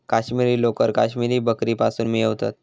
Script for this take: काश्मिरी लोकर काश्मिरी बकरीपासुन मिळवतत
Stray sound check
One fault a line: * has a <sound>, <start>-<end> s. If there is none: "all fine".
all fine